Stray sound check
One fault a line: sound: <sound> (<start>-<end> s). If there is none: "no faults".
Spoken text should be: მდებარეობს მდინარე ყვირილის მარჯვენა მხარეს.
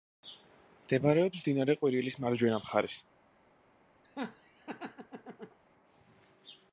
sound: laugh (4.0-5.6 s)